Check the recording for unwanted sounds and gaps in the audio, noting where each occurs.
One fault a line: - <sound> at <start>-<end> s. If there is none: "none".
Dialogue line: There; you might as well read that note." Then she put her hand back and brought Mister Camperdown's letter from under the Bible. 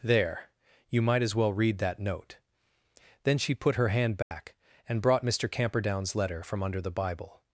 - dropout at 4.2-4.3 s